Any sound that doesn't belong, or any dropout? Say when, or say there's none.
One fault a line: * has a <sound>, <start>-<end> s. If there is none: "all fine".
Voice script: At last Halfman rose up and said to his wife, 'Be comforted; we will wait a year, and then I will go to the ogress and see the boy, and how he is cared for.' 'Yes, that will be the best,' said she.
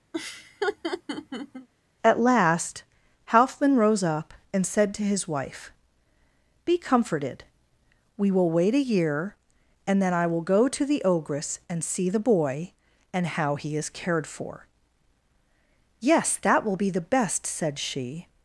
* has a laugh, 0.1-1.7 s